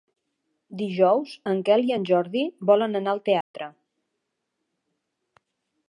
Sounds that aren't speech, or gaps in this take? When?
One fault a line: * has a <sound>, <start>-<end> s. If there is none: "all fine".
* has a dropout, 3.4-3.5 s